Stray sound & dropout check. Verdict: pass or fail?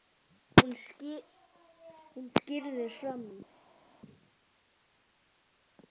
pass